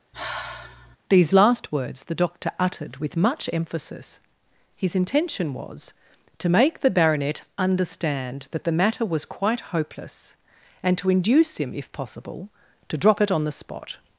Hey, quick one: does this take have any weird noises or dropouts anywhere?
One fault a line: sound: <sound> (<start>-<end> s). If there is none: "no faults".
sound: sigh (0.1-1.0 s)